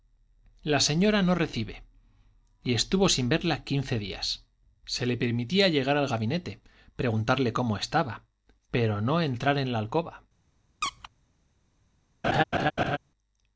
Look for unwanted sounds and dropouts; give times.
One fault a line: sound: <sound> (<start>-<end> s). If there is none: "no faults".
sound: squeak (10.8-11.1 s)
sound: laugh (12.2-13.0 s)